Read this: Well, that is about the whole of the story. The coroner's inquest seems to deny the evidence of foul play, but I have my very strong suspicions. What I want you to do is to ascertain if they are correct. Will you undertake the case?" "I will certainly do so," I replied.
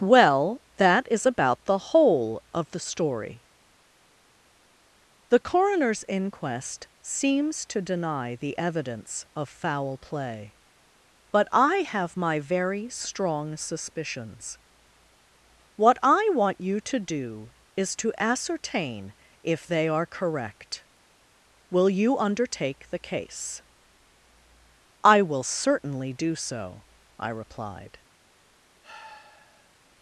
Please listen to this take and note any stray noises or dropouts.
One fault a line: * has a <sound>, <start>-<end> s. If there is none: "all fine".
* has a sigh, 28.8-29.7 s